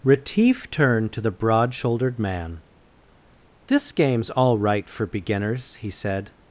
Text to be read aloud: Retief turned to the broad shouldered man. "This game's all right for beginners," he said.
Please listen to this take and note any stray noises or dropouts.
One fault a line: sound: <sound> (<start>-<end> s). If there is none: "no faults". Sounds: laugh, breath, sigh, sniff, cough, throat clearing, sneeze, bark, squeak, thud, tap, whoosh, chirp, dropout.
no faults